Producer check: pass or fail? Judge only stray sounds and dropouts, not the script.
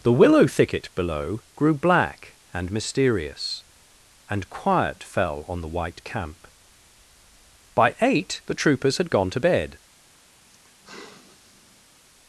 fail